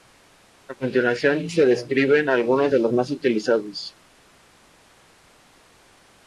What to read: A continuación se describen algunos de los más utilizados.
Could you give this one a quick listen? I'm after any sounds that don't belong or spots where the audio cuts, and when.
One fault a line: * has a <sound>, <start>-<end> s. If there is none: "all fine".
all fine